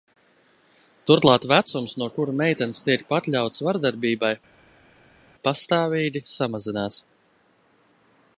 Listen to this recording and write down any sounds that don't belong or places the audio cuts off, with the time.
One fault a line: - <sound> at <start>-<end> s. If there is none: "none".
none